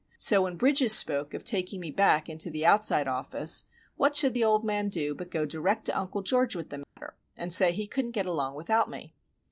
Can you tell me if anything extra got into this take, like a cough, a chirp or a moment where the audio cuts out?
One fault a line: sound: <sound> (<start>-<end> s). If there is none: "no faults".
sound: dropout (6.8-7.0 s)